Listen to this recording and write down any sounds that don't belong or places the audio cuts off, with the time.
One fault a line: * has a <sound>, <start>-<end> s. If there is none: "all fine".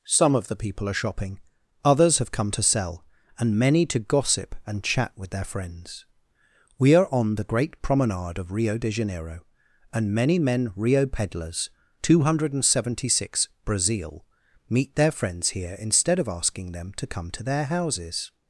all fine